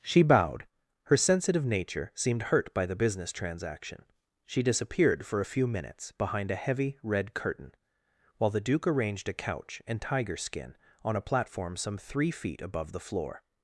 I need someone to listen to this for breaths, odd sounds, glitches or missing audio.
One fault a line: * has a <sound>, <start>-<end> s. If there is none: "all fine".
all fine